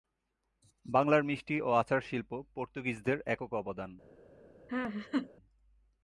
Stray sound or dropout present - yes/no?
yes